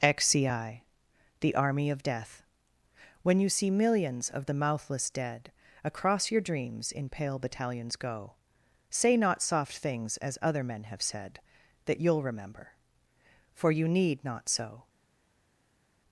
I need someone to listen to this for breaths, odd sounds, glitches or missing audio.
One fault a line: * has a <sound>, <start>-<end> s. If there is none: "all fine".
all fine